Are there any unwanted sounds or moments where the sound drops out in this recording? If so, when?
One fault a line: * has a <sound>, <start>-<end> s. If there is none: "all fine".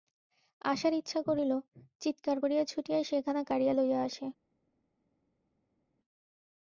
all fine